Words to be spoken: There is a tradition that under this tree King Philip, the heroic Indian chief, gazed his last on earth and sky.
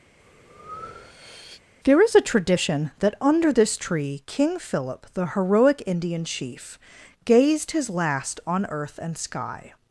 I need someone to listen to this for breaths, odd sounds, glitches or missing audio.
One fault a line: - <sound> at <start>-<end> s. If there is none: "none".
- breath at 0.2-1.6 s